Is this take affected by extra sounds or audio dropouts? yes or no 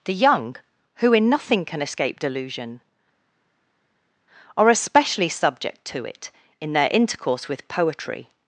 no